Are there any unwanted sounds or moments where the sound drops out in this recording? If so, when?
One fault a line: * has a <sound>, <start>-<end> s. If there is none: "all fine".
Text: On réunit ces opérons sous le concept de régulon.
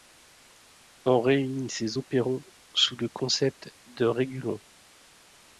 all fine